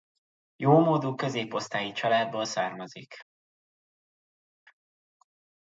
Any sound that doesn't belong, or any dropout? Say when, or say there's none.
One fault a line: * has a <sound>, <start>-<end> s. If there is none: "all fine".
all fine